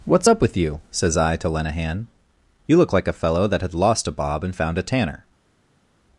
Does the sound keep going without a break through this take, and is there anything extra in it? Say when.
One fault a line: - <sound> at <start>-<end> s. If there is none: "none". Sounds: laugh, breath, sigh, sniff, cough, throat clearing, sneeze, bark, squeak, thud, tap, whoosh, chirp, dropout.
none